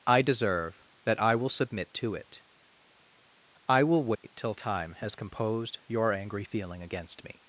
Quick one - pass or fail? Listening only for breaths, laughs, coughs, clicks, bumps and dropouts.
fail